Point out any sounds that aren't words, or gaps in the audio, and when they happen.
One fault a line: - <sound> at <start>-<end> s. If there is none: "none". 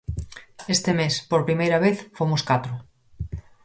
none